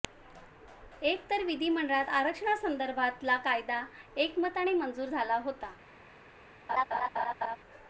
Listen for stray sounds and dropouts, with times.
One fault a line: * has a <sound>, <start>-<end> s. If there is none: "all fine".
* has a laugh, 6.7-7.6 s